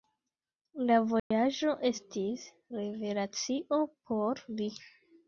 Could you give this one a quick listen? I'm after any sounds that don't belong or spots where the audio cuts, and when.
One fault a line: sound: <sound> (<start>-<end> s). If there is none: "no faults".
sound: dropout (1.2-1.3 s)